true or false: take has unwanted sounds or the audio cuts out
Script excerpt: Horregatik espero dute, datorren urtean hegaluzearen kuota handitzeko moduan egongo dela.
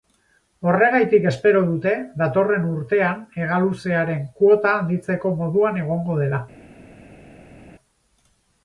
false